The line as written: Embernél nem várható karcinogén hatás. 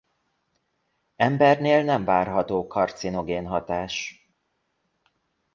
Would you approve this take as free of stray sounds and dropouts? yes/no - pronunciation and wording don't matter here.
yes